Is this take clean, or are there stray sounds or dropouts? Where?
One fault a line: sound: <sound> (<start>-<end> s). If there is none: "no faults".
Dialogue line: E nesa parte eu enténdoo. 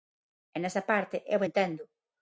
no faults